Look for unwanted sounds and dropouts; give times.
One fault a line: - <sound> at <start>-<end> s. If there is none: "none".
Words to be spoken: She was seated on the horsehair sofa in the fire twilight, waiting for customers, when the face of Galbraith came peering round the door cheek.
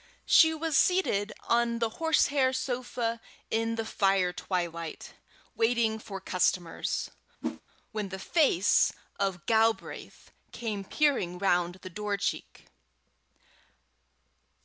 - whoosh at 7.4-7.6 s